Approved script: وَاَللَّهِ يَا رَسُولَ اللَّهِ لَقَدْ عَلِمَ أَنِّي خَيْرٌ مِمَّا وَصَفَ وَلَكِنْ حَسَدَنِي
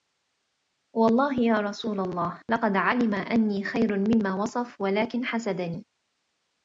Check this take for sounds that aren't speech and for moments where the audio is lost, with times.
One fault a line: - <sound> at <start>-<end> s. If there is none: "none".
none